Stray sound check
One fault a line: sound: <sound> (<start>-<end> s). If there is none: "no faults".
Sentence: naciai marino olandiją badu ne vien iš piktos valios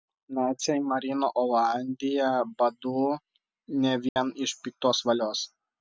sound: dropout (4.1-4.2 s)